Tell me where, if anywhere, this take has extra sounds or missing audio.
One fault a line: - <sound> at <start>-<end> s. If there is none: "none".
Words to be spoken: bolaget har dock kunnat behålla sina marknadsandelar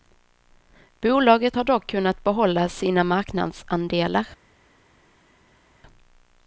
none